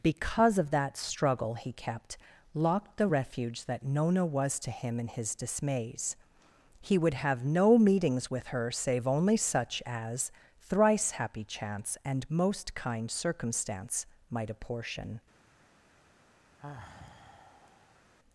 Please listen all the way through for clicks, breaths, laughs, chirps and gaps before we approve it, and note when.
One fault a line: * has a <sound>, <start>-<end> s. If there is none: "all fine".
* has a sigh, 16.6-18.0 s